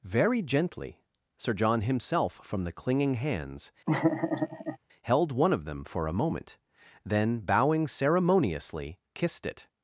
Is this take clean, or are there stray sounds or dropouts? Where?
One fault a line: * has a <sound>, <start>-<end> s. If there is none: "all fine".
* has a laugh, 3.9-4.8 s